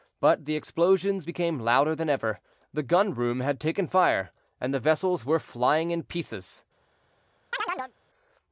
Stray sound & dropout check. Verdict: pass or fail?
fail